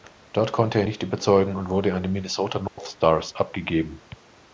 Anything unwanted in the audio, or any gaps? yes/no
yes